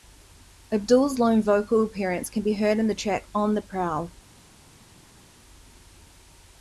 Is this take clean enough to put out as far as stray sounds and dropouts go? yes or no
yes